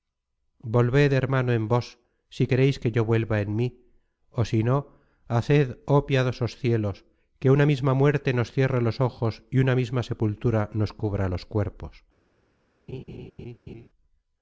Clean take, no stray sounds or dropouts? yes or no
no